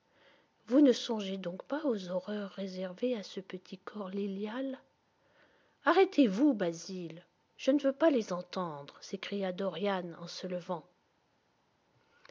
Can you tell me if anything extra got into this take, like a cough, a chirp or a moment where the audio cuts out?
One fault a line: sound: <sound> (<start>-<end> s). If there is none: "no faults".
no faults